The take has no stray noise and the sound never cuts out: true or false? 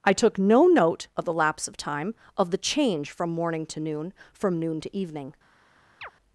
false